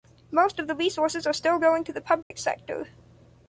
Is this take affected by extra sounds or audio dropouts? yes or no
yes